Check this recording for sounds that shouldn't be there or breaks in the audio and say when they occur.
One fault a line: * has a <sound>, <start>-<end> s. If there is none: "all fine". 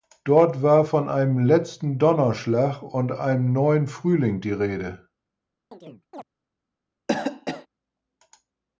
* has a chirp, 5.7-6.2 s
* has a cough, 7.1-7.7 s